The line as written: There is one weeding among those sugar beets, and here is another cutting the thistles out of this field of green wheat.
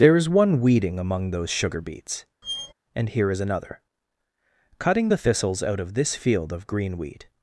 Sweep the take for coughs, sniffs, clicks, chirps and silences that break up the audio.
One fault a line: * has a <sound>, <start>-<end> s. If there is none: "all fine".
* has a squeak, 2.4-2.7 s